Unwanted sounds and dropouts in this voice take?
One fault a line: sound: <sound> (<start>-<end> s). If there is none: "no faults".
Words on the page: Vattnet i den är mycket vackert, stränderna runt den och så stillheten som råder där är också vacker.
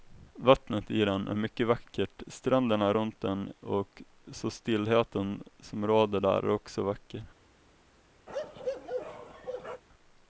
sound: bark (8.3-9.8 s)